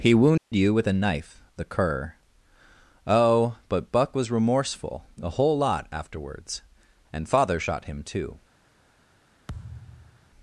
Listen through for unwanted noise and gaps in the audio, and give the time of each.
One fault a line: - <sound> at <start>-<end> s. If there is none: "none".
- dropout at 0.4-0.5 s
- thud at 9.5-10.3 s